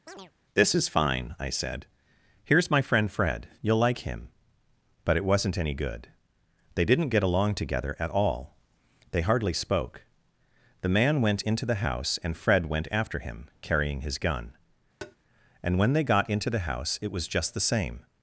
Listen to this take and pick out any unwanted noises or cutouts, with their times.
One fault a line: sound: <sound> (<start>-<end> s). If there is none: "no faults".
sound: chirp (0.1-0.3 s)
sound: tap (15.0-15.2 s)